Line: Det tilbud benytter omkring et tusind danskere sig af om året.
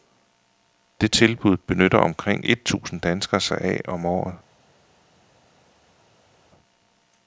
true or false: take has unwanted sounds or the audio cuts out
false